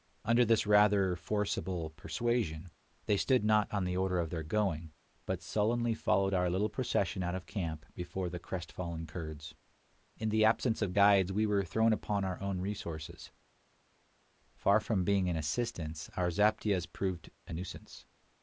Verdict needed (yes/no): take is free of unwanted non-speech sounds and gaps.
yes